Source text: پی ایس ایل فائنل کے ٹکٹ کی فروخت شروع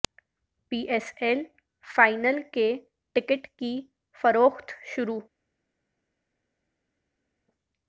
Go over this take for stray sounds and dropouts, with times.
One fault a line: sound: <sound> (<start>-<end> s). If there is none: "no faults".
no faults